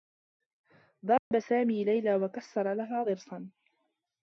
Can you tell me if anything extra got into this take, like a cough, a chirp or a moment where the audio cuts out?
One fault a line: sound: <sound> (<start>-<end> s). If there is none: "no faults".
sound: dropout (1.2-1.3 s)